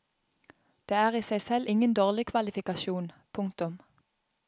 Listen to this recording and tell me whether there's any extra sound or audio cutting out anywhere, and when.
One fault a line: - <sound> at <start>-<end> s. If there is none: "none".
none